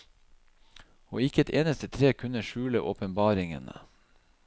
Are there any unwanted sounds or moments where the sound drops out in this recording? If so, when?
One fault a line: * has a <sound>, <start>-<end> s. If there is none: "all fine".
all fine